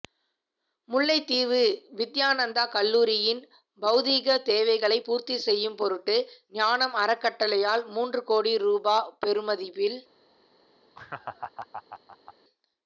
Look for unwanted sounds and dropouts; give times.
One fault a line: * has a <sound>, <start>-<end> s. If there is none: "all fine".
* has a laugh, 10.9-12.3 s